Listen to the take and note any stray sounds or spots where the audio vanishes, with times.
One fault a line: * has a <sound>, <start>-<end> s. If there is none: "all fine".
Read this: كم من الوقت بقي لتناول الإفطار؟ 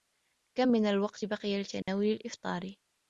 * has a dropout, 1.8-1.9 s